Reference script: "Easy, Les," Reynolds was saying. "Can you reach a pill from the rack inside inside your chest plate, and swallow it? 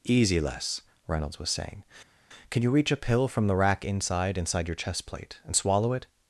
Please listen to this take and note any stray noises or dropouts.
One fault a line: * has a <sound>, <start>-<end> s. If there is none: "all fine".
all fine